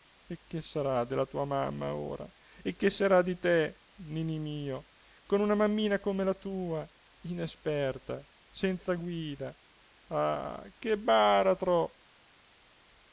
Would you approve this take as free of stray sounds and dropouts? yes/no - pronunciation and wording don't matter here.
yes